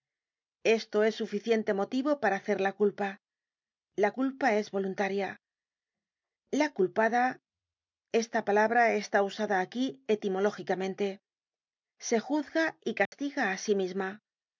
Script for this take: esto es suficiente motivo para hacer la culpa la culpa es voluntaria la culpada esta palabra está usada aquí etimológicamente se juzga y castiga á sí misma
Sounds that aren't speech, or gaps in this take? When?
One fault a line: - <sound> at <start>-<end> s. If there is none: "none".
- dropout at 13.1-13.1 s